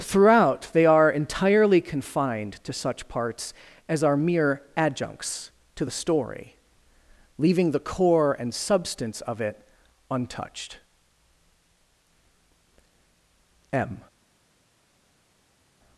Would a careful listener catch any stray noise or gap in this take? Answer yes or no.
no